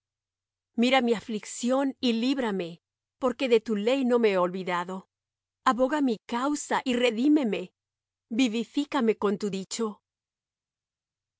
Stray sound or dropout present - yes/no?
no